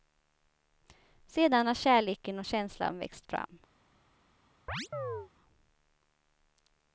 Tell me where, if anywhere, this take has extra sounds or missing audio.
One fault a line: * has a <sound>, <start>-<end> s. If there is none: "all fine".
* has a chirp, 4.7-5.3 s